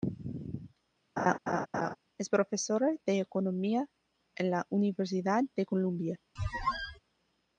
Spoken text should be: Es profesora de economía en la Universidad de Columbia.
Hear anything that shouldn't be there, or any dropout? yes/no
yes